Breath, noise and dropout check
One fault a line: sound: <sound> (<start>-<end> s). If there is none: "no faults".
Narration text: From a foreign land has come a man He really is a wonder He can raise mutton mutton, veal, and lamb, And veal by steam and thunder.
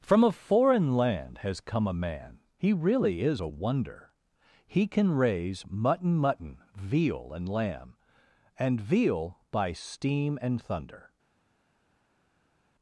no faults